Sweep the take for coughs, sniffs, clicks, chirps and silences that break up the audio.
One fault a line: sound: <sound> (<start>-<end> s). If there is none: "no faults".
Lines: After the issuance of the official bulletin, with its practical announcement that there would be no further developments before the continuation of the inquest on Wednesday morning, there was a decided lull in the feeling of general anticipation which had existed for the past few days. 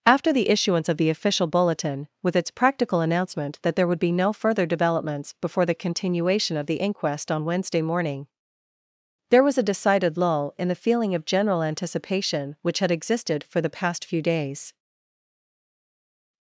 no faults